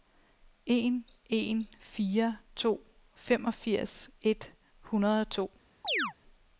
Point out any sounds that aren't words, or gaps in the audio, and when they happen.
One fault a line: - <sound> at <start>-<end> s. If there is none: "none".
- chirp at 5.8-6.1 s